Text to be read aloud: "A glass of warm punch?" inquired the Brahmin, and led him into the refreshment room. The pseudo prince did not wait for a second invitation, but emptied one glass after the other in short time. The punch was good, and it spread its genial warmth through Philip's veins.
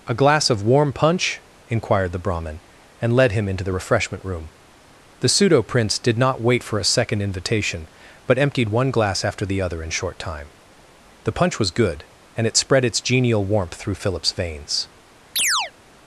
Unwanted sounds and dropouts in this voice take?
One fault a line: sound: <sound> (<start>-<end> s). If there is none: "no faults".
sound: chirp (15.4-15.7 s)